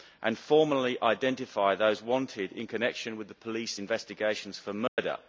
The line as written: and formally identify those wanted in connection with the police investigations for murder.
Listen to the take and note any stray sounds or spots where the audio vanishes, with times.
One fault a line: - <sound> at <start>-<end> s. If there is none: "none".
- dropout at 4.9-5.0 s